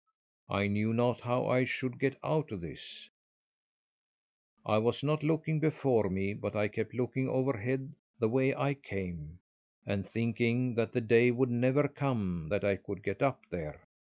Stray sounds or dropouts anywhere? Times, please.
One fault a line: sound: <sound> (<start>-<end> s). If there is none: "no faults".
no faults